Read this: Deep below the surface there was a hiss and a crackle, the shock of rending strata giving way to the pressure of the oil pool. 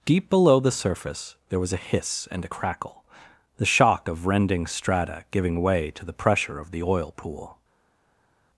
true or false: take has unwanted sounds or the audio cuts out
false